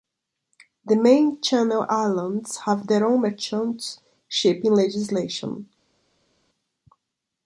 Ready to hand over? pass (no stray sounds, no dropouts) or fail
pass